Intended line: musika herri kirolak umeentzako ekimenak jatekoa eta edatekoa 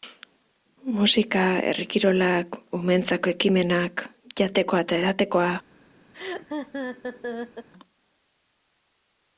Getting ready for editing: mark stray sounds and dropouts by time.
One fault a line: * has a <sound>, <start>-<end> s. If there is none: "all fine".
* has a laugh, 6.1-7.7 s